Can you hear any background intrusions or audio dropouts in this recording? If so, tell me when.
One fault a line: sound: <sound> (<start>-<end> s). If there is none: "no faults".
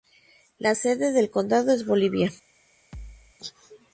sound: thud (2.9-3.4 s)